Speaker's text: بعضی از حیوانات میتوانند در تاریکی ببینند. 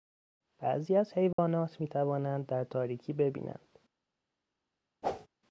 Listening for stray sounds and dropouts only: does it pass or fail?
fail